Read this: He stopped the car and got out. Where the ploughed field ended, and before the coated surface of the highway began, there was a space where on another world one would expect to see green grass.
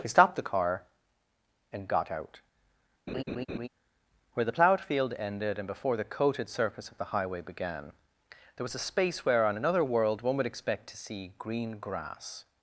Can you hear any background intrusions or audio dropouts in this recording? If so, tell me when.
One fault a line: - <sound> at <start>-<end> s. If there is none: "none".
- laugh at 3.1-3.7 s